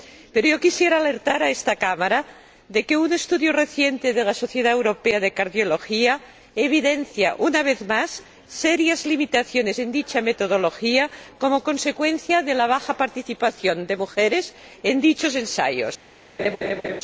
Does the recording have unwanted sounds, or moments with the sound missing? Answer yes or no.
yes